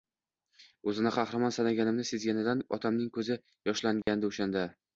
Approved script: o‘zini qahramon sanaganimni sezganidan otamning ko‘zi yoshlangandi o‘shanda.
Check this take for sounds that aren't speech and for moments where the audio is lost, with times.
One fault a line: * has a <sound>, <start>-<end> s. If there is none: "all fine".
* has a dropout, 4.0-4.1 s